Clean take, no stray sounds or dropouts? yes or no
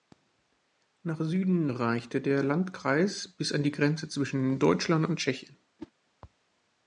no